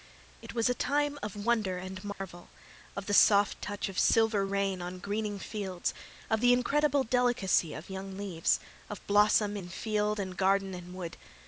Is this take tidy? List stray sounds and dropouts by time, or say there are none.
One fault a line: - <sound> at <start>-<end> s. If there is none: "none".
- dropout at 2.1-2.2 s